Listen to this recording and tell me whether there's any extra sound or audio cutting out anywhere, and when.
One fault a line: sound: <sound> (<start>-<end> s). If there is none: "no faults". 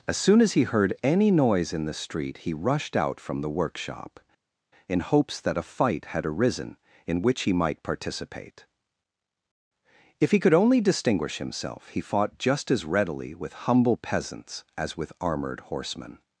no faults